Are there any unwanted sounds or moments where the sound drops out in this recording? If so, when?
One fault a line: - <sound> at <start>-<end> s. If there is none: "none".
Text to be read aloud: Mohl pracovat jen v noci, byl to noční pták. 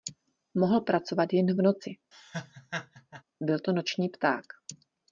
- laugh at 2.1-3.2 s